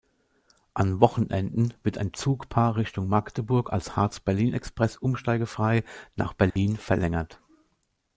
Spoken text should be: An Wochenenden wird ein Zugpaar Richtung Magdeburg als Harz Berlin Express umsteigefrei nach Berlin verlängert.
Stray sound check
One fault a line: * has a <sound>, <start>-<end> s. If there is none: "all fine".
* has a dropout, 6.5-6.6 s